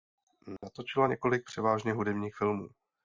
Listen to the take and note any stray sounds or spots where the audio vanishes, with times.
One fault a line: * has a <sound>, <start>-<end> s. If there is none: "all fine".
* has a dropout, 0.6-0.6 s